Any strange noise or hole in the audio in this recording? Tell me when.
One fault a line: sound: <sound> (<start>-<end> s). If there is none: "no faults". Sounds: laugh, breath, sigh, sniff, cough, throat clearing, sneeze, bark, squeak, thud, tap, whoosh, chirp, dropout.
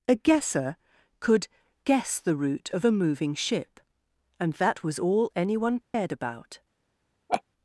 sound: dropout (5.8-5.9 s)
sound: laugh (7.3-7.4 s)